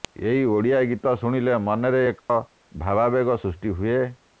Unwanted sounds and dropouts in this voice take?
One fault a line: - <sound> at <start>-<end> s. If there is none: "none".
- dropout at 2.2-2.3 s